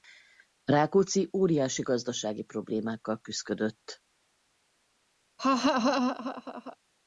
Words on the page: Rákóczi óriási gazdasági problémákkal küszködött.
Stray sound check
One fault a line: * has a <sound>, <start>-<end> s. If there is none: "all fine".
* has a laugh, 5.4-6.8 s